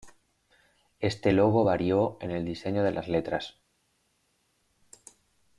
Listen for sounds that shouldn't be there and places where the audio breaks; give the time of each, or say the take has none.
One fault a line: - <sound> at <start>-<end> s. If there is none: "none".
none